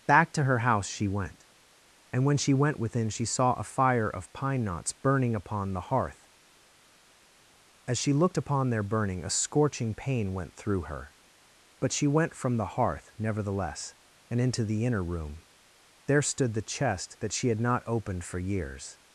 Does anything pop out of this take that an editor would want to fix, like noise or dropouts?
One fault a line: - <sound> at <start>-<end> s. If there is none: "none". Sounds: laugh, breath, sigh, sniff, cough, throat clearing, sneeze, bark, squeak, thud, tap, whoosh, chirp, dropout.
none